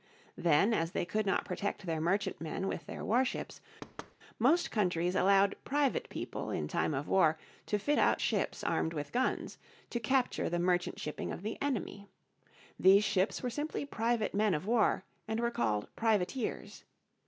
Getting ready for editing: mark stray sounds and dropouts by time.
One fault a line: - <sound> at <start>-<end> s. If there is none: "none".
- thud at 3.8-4.2 s